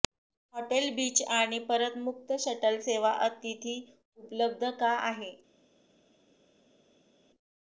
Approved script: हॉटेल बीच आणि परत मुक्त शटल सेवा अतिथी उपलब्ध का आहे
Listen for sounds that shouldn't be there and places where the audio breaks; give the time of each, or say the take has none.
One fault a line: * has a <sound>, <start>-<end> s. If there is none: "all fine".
all fine